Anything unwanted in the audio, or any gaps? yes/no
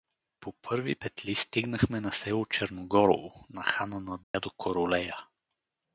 yes